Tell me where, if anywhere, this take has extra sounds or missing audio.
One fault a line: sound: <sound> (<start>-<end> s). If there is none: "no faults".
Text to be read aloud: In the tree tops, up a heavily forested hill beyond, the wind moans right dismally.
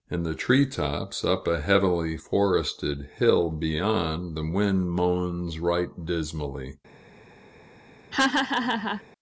sound: laugh (8.1-9.0 s)